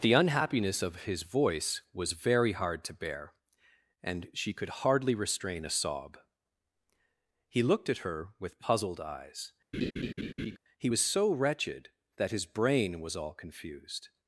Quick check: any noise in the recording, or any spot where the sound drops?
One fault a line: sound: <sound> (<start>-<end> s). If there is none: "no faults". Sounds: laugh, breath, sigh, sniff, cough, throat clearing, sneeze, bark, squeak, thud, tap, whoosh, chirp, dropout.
sound: laugh (9.7-10.6 s)